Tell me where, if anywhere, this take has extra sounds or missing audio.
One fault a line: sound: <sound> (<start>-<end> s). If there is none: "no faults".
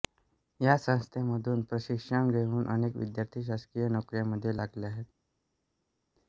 no faults